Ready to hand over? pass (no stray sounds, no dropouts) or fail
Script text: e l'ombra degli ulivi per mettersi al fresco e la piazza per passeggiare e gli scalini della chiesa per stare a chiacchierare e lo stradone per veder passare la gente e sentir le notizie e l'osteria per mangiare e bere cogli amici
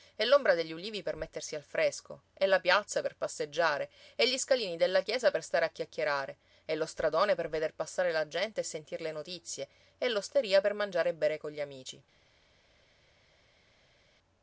pass